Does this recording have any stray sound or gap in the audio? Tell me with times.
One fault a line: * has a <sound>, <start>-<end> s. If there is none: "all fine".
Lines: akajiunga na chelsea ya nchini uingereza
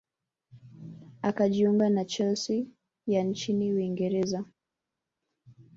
all fine